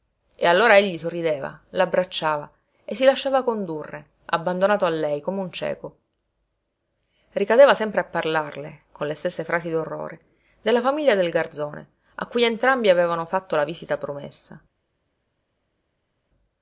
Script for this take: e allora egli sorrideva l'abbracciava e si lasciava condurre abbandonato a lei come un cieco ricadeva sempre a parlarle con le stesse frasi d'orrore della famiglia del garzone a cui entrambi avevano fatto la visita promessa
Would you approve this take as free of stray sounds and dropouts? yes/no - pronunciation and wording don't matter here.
yes